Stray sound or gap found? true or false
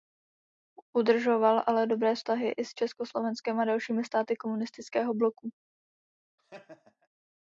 true